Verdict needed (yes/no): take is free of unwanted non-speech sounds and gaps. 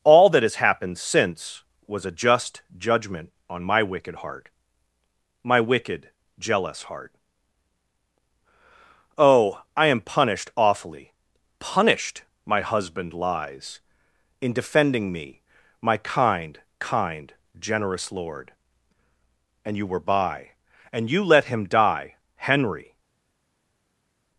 yes